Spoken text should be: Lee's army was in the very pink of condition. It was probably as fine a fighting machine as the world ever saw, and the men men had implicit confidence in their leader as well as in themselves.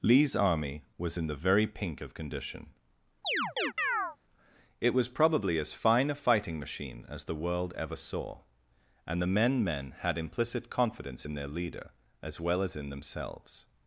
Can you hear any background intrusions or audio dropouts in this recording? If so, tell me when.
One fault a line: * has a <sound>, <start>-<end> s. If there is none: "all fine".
* has a chirp, 3.2-4.2 s